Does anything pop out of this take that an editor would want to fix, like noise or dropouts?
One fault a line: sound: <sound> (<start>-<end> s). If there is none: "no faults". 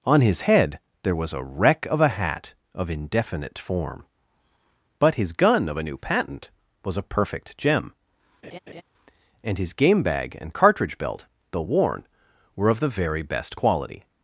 sound: laugh (8.4-8.8 s)